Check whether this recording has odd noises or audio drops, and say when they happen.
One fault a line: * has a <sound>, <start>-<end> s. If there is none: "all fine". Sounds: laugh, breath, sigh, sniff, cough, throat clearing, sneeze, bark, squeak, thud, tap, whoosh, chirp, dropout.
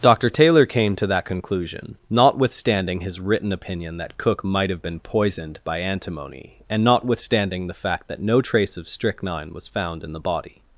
all fine